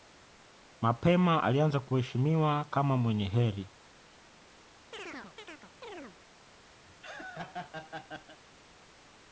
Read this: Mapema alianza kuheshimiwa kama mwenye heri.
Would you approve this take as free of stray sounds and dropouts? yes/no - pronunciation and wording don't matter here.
no